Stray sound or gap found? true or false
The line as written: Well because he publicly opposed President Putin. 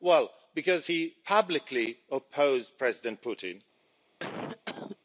true